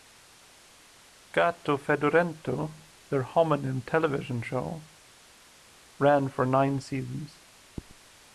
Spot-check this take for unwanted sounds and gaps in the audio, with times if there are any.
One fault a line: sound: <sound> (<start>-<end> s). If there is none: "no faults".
no faults